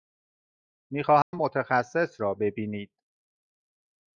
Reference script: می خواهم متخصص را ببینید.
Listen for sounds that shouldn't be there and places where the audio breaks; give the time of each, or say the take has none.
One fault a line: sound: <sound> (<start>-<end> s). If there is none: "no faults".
sound: dropout (1.2-1.3 s)